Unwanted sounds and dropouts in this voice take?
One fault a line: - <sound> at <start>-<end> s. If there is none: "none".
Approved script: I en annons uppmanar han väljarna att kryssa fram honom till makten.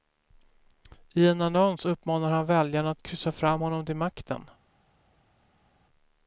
none